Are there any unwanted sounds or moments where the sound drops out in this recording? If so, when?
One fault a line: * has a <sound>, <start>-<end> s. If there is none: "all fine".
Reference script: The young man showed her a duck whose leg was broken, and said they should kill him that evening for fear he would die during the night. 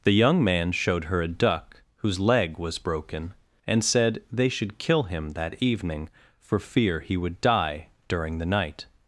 all fine